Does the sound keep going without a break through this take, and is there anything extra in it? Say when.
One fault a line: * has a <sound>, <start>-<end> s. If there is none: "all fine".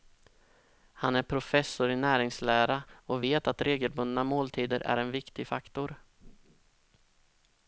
all fine